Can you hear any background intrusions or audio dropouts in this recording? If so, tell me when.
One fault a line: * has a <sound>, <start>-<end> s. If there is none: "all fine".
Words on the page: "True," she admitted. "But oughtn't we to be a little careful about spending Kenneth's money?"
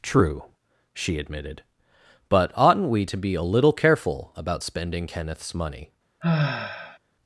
* has a sigh, 6.2-7.0 s